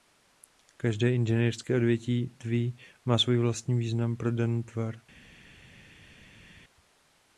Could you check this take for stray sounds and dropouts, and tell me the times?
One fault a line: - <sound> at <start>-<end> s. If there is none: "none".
none